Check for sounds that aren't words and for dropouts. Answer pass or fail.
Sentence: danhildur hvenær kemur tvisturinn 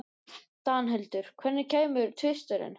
pass